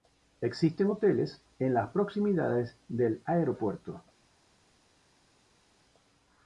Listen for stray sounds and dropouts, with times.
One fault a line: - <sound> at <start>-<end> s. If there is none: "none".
none